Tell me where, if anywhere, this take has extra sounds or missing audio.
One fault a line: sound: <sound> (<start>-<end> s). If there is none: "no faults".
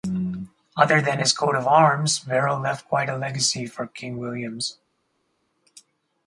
no faults